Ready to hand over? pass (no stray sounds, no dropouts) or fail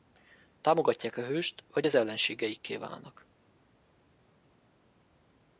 pass